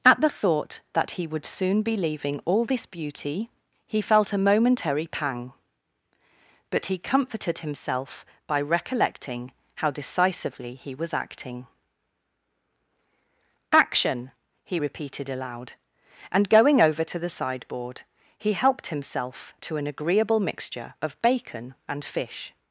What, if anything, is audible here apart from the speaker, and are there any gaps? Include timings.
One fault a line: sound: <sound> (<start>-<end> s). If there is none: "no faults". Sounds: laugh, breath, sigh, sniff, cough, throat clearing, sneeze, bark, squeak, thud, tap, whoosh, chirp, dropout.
no faults